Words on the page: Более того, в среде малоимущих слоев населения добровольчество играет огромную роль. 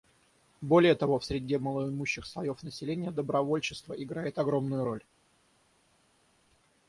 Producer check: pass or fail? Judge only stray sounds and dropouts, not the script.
pass